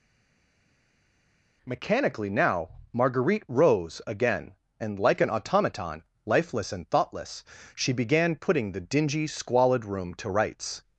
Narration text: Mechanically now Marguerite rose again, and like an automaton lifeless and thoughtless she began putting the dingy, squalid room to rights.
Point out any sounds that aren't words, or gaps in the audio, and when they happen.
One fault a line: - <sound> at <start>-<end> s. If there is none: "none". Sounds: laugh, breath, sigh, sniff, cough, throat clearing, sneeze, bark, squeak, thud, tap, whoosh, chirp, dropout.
none